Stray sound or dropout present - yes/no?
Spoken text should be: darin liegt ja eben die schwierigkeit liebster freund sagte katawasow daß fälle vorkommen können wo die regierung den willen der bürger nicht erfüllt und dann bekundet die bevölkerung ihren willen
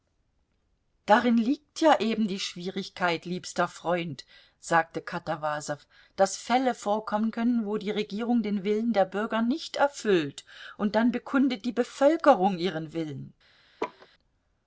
yes